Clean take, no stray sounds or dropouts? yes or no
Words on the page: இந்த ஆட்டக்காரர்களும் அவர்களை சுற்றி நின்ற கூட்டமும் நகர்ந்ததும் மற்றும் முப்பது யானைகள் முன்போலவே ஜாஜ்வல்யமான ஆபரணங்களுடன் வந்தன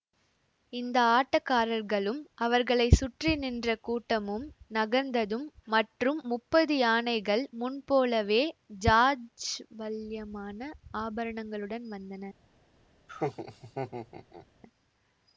no